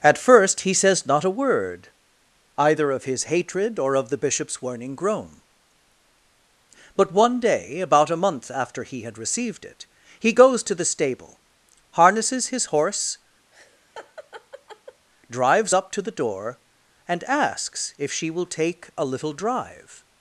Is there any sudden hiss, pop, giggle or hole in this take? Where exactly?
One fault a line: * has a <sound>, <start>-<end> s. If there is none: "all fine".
* has a laugh, 13.5-15.1 s